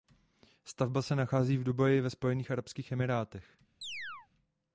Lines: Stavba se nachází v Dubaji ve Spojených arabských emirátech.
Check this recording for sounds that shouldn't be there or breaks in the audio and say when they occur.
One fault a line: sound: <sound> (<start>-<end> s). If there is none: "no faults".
sound: chirp (3.8-4.3 s)